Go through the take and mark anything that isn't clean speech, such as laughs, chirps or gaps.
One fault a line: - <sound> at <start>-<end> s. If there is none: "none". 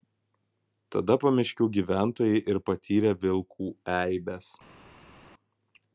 none